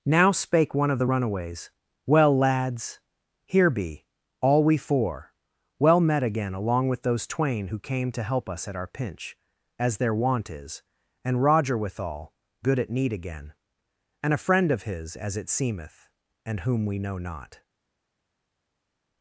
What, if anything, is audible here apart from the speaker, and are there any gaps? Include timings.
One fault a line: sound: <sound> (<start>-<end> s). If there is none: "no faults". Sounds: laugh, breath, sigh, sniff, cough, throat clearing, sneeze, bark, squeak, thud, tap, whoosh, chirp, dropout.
no faults